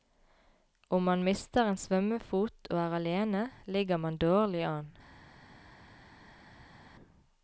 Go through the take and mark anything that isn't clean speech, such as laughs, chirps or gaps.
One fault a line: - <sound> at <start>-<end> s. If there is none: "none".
none